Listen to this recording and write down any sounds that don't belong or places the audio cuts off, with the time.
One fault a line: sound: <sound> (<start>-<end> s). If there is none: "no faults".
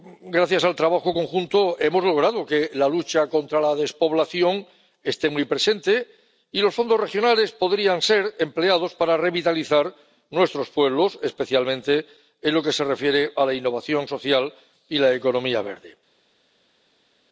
no faults